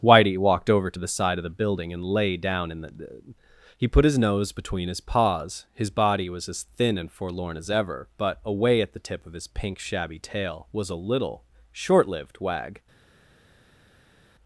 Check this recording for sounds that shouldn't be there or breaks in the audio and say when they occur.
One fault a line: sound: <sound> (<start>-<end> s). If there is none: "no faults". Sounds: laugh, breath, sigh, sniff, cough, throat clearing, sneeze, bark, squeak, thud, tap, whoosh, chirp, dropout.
no faults